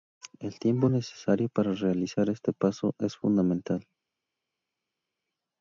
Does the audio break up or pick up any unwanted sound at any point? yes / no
no